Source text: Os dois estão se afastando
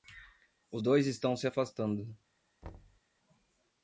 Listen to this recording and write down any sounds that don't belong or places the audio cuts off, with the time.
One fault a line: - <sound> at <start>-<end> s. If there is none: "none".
- thud at 2.6-3.0 s